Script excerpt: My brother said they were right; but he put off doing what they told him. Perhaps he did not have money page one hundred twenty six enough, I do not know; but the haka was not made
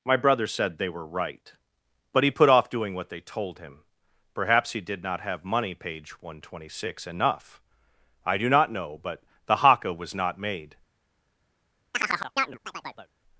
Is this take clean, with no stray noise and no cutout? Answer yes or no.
no